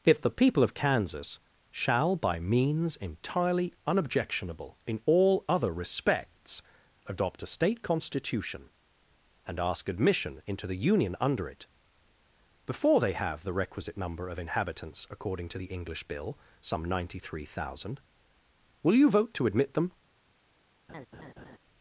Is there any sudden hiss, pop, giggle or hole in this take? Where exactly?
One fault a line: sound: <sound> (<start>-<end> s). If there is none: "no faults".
sound: laugh (20.9-21.6 s)